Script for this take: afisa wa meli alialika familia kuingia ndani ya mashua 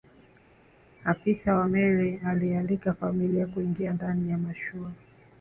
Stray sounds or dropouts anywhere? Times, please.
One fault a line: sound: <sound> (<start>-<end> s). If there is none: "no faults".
no faults